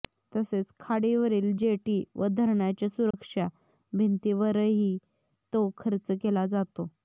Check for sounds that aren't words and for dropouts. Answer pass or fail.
fail